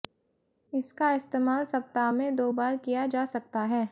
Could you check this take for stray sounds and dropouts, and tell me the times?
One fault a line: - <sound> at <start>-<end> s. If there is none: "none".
none